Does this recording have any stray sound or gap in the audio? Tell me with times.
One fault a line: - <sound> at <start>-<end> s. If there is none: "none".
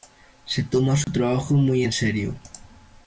- dropout at 1.0-1.1 s